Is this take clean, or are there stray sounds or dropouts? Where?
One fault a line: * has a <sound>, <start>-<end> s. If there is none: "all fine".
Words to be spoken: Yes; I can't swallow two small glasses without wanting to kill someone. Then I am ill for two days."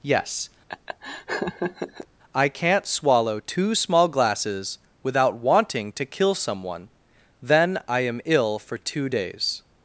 * has a laugh, 0.7-2.1 s